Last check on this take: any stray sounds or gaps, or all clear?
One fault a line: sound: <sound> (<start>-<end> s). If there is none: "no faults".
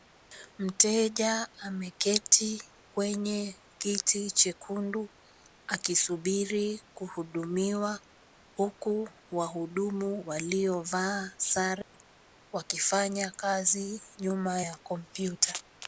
sound: dropout (11.8-11.9 s)